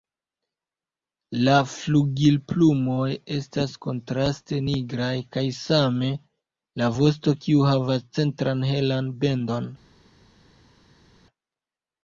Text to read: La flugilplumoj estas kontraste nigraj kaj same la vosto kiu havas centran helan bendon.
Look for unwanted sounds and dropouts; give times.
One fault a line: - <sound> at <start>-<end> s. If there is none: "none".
none